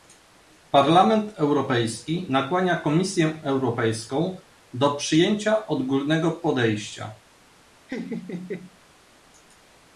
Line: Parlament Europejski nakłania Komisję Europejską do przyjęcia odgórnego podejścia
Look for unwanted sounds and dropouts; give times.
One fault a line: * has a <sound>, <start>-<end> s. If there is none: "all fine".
* has a laugh, 7.9-8.8 s